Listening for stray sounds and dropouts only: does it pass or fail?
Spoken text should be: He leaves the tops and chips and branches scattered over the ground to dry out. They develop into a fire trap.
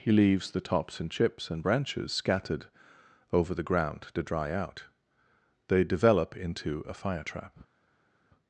pass